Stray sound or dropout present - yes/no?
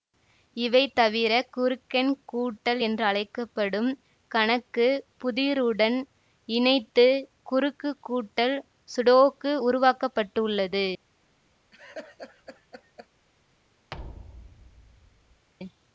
yes